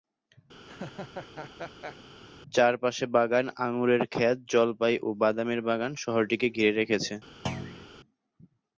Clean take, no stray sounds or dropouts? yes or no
no